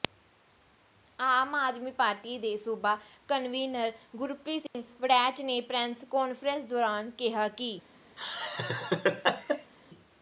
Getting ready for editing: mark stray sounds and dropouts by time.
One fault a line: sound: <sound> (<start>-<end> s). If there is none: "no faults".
sound: dropout (4.7-4.7 s)
sound: laugh (8.2-9.7 s)